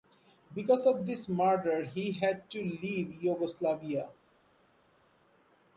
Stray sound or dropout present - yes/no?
no